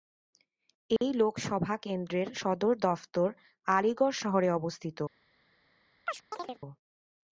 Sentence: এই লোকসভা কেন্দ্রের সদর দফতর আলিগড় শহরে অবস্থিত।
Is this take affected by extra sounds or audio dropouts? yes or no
yes